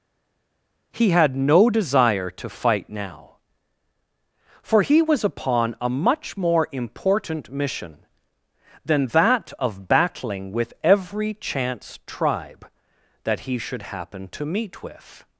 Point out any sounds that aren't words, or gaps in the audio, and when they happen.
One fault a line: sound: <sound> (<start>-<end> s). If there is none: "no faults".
no faults